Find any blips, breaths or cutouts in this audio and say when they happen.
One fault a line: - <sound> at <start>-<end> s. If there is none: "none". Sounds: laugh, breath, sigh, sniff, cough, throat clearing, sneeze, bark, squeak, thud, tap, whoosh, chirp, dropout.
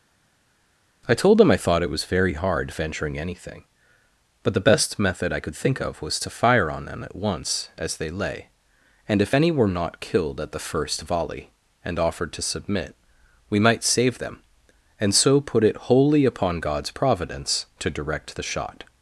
none